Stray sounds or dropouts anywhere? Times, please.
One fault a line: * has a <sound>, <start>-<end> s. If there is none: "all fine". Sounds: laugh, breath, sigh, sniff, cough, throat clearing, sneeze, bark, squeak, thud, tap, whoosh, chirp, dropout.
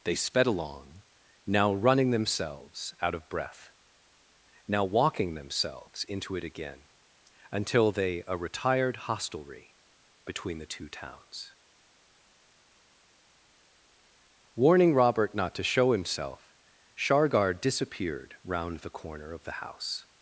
all fine